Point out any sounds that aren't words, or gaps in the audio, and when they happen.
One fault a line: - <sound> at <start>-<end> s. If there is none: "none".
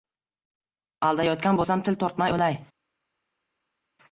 none